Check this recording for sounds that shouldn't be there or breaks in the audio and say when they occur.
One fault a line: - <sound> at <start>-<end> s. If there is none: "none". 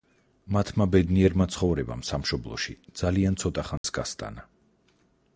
- dropout at 3.8-3.8 s